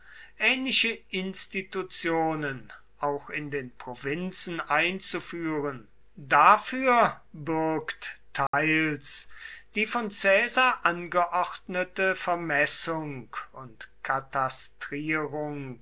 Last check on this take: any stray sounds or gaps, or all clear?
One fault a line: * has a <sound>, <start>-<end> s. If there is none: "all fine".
* has a dropout, 8.5-8.5 s